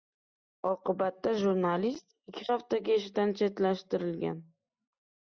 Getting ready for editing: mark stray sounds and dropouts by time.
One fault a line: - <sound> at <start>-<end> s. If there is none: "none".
none